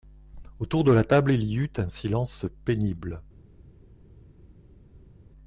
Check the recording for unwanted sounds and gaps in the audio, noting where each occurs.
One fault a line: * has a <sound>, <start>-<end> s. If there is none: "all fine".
all fine